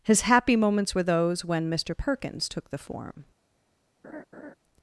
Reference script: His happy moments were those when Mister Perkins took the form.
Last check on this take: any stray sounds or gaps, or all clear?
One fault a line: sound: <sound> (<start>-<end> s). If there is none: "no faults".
sound: laugh (4.0-4.5 s)